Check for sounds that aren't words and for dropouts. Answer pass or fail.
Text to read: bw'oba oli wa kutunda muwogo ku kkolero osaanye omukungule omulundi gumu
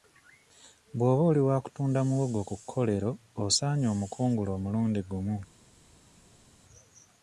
pass